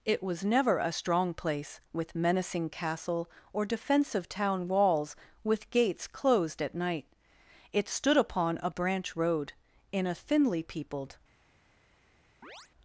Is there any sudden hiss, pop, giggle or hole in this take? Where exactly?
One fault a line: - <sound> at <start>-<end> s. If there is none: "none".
- chirp at 12.4-12.7 s